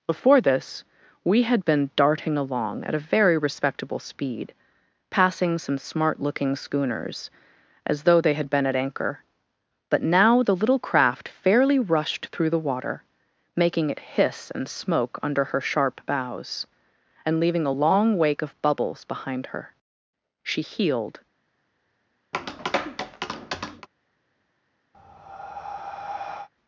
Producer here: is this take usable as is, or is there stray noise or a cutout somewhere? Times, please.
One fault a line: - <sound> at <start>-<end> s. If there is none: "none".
- tap at 22.3-23.9 s
- breath at 24.9-26.5 s